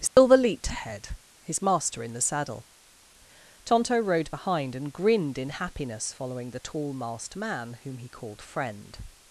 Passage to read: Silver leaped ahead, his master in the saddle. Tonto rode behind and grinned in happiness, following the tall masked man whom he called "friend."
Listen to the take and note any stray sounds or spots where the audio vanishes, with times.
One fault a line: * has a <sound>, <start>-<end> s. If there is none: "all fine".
* has a dropout, 0.1-0.2 s